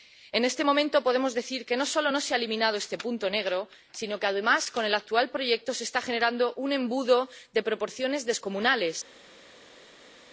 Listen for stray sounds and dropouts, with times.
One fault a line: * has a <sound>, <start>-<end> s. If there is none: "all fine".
all fine